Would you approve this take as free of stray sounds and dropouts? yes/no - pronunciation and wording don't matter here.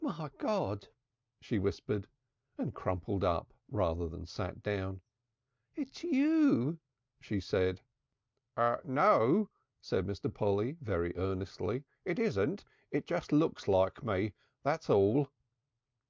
yes